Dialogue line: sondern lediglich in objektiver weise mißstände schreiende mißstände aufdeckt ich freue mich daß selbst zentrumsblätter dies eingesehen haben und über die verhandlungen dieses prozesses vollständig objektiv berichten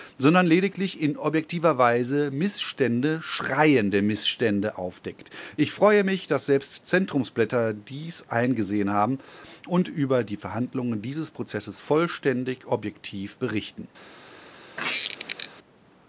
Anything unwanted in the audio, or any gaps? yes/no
yes